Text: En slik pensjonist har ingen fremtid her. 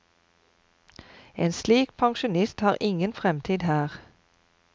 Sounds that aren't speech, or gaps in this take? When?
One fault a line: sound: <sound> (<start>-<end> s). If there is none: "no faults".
no faults